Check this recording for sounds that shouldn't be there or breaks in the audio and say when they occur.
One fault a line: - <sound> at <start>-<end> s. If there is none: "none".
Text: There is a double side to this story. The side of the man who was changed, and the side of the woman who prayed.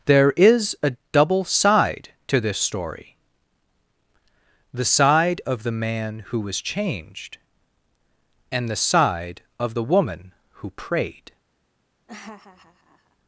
- laugh at 12.1-13.2 s